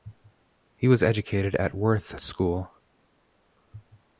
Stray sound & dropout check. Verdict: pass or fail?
pass